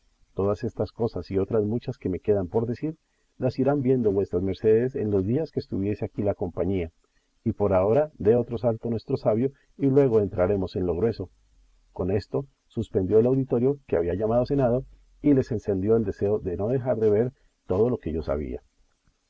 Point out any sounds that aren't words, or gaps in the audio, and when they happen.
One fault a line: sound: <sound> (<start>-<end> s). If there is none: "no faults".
no faults